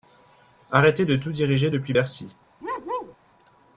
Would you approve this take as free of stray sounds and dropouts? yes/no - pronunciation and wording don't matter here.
no